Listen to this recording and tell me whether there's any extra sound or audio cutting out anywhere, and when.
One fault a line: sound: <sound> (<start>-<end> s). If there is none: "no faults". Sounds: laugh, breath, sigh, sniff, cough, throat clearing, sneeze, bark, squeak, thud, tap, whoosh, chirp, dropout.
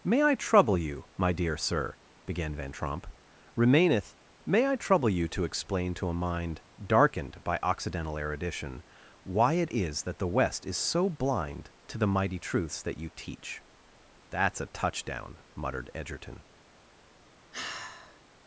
sound: sigh (17.5-18.2 s)